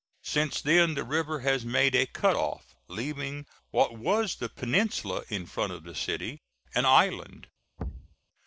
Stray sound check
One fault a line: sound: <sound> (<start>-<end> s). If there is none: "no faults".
sound: thud (7.8-8.2 s)